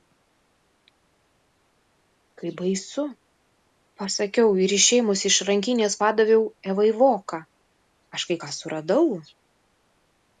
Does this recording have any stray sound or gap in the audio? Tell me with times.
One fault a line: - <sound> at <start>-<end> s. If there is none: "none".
none